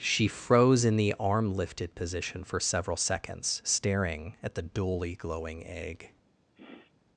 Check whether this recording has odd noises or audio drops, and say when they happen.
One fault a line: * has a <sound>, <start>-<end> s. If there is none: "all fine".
* has a sniff, 6.5-6.9 s